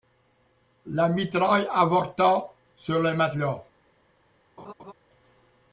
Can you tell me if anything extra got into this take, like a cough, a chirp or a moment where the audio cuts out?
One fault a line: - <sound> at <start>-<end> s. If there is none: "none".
- laugh at 4.6-4.9 s